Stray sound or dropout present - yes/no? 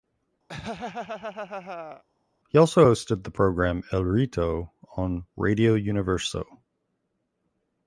yes